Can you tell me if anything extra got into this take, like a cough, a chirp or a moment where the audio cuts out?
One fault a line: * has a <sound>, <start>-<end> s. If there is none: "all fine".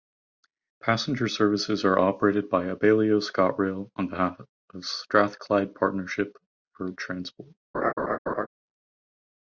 * has a laugh, 7.7-8.5 s